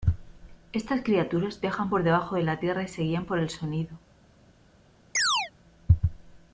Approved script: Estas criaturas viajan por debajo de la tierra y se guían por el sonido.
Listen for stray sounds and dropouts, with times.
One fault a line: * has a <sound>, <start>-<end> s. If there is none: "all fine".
* has a chirp, 5.1-5.5 s